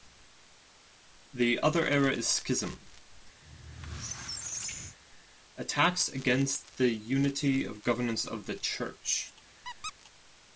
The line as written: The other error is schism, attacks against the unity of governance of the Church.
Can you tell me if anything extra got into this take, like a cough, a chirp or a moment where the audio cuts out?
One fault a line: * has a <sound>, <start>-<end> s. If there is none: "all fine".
* has a squeak, 3.4-5.0 s
* has a squeak, 9.6-9.9 s